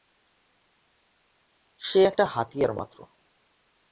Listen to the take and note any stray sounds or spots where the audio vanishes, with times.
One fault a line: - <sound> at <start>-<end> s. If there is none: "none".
none